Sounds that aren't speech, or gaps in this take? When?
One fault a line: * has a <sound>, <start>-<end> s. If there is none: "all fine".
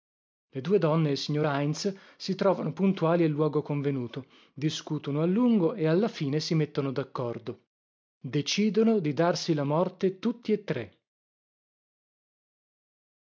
all fine